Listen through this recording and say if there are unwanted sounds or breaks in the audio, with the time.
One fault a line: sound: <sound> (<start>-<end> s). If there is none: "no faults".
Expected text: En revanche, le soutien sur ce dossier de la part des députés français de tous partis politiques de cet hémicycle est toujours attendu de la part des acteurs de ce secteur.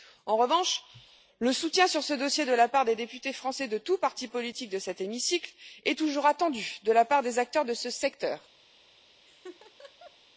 sound: laugh (9.3-10.2 s)